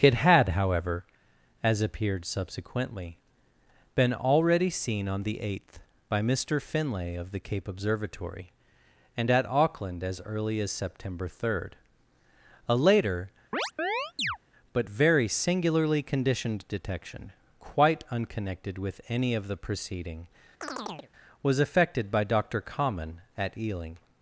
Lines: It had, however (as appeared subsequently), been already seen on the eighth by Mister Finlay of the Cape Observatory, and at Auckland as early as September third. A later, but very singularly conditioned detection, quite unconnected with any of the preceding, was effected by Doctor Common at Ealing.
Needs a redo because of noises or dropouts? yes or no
yes